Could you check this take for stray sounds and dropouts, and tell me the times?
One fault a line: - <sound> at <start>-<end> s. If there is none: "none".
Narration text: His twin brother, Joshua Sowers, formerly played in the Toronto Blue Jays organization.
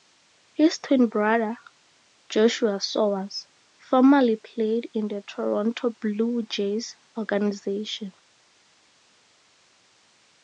none